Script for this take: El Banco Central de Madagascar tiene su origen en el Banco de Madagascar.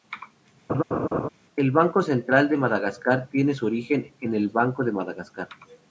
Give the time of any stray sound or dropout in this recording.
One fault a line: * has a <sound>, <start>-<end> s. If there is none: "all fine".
* has a laugh, 0.7-1.3 s